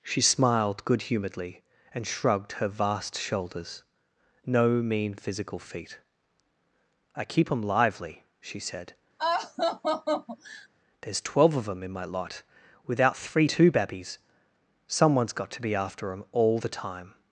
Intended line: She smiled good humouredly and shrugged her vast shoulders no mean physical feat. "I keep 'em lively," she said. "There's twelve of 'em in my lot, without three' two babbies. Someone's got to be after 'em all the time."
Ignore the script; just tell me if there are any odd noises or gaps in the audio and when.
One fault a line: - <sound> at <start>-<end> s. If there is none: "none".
- laugh at 9.2-10.7 s